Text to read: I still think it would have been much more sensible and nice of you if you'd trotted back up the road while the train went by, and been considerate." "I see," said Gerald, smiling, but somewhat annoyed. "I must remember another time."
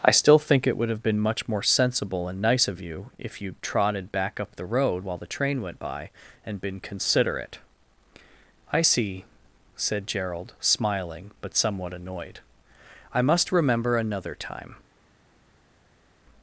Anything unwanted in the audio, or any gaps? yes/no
no